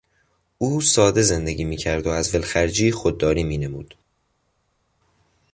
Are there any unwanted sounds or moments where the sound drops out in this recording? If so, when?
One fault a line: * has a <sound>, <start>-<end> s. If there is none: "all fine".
all fine